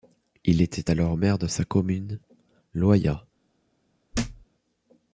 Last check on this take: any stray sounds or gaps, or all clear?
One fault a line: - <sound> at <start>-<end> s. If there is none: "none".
- thud at 4.1-4.5 s